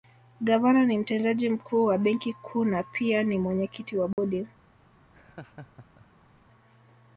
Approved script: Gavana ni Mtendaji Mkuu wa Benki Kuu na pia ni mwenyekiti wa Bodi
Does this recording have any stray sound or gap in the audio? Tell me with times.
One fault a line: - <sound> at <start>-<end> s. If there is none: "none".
- dropout at 4.1-4.2 s
- laugh at 5.1-6.4 s